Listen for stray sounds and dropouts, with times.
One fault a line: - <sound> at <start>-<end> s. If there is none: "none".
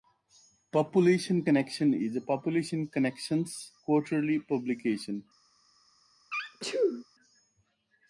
- sneeze at 6.3-7.1 s